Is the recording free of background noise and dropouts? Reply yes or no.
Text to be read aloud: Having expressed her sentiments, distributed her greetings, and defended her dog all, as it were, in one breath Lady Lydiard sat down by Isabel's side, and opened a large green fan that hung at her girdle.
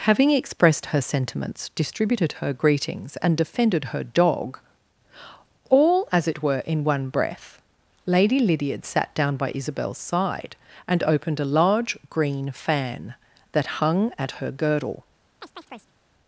no